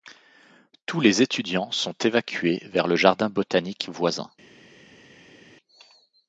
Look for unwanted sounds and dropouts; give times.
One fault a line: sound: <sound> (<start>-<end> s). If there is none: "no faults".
no faults